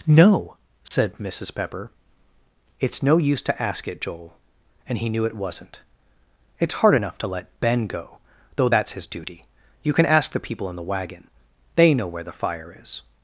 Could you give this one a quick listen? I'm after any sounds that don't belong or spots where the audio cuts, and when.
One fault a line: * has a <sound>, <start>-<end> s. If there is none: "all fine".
* has a dropout, 0.9-0.9 s